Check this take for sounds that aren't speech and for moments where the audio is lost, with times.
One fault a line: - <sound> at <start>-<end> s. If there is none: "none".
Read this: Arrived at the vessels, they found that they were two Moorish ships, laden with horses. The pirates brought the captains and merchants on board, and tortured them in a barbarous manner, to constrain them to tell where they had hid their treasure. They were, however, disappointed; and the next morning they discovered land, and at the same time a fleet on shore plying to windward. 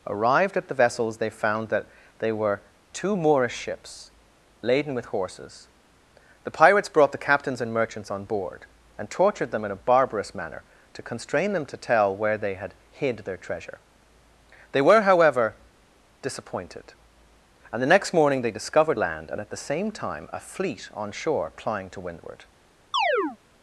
- chirp at 22.9-23.4 s